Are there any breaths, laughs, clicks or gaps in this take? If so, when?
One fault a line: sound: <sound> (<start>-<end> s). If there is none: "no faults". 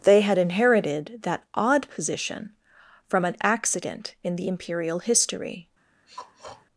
sound: throat clearing (6.0-6.7 s)